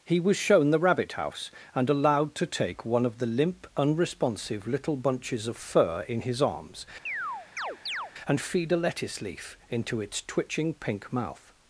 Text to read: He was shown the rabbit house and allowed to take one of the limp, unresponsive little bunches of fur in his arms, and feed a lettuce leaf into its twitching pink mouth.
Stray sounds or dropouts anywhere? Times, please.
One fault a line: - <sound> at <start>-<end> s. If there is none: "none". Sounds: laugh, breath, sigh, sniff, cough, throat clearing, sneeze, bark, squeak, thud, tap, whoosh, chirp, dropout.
- chirp at 7.1-8.1 s